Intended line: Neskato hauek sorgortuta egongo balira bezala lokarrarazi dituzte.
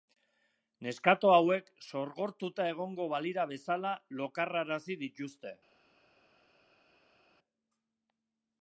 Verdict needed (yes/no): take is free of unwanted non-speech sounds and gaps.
yes